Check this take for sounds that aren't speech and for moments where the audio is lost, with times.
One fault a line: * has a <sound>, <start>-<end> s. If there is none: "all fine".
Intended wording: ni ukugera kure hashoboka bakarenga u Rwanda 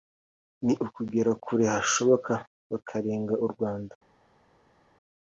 all fine